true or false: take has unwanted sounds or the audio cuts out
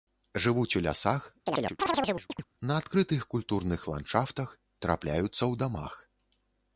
true